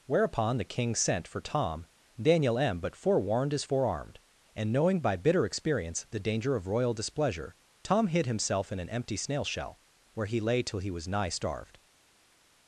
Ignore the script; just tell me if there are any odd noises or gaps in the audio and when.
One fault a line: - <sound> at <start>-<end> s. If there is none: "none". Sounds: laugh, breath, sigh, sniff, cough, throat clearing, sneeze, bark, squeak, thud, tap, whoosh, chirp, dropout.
none